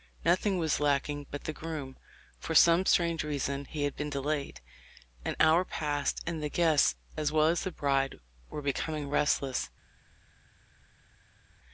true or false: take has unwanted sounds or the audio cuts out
false